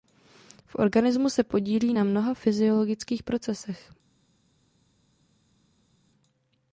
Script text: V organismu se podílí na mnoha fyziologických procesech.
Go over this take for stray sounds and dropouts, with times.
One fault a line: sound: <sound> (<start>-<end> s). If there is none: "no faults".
no faults